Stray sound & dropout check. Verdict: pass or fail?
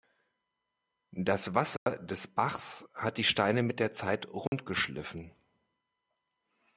fail